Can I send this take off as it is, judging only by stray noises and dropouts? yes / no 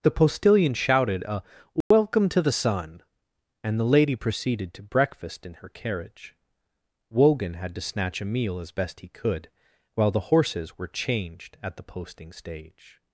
no